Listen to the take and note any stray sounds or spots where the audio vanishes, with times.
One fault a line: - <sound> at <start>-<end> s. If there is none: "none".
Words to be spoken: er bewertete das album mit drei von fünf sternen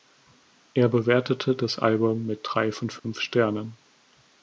- dropout at 3.0-3.0 s